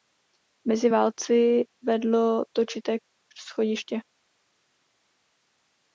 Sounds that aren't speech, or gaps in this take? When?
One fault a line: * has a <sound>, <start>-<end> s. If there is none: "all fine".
all fine